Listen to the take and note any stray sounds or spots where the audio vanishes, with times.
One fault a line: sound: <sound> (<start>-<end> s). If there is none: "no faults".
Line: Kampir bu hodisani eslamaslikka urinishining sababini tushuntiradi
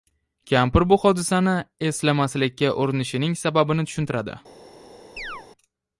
sound: chirp (5.2-5.5 s)